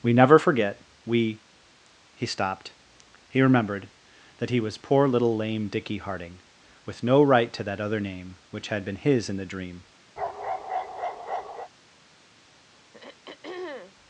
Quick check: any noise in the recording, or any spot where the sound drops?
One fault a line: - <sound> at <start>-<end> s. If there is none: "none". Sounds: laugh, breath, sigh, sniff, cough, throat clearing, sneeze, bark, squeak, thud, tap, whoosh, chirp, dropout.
- bark at 10.2-11.7 s
- throat clearing at 12.9-13.9 s